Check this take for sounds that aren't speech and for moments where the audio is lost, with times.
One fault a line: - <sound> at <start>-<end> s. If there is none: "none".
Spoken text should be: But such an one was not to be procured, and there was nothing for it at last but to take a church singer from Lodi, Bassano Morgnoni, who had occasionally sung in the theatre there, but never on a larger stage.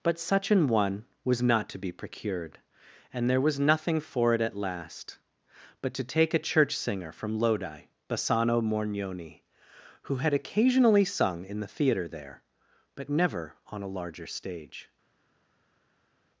none